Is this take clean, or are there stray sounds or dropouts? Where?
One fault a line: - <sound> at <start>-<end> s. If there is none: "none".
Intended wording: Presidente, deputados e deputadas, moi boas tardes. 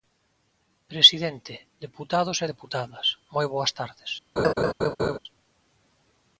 - laugh at 4.4-5.2 s